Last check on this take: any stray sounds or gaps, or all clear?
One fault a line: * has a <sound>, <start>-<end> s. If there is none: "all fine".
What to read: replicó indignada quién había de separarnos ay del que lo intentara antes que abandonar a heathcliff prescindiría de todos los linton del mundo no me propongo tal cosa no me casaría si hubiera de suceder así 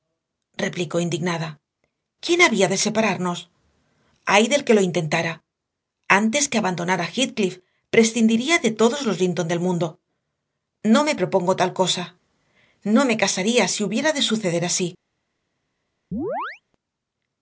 * has a chirp, 16.1-16.6 s